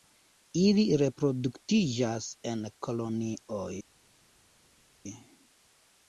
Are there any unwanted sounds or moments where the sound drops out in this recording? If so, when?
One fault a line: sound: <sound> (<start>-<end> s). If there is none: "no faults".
no faults